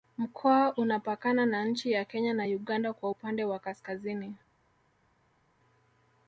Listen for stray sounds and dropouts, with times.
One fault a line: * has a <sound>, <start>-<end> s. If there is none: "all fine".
all fine